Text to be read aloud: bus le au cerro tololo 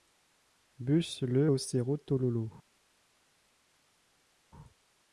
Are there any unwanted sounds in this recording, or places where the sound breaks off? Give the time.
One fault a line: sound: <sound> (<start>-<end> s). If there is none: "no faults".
no faults